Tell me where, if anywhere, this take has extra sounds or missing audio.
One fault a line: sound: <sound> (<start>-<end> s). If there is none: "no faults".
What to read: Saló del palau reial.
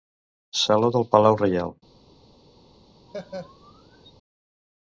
sound: laugh (3.1-4.1 s)